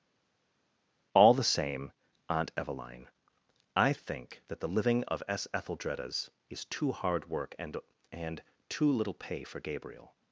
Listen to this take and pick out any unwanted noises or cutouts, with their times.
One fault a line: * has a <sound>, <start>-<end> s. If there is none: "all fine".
all fine